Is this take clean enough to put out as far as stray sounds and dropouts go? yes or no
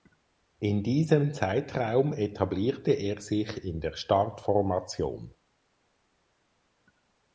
yes